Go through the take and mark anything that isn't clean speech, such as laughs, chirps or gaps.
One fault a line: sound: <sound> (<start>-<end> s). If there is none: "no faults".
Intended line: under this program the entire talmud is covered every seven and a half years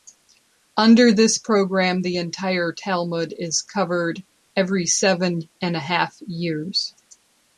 no faults